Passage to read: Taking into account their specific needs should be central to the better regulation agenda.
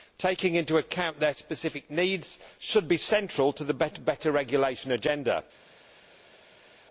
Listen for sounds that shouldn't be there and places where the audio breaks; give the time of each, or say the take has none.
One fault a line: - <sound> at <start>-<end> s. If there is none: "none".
none